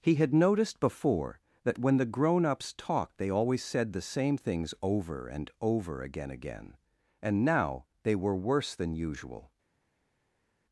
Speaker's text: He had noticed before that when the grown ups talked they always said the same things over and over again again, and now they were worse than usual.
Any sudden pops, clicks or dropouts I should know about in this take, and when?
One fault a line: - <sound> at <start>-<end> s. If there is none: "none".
none